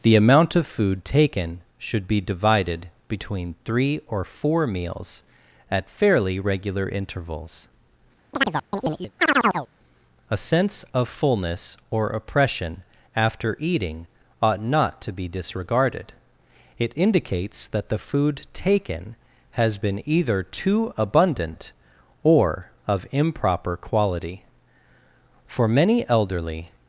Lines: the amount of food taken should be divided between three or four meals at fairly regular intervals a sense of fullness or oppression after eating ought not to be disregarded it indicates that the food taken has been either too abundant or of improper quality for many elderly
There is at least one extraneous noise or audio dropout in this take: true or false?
true